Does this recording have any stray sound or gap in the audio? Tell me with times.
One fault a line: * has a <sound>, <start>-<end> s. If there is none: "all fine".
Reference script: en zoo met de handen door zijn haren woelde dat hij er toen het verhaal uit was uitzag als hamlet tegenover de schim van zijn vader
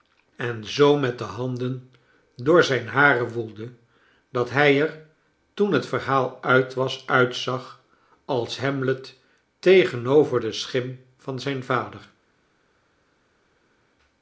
all fine